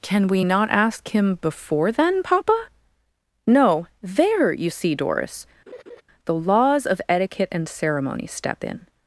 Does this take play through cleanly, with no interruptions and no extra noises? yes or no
no